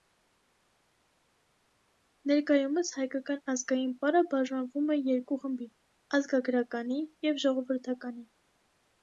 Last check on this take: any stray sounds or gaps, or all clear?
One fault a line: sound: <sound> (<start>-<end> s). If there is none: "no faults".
no faults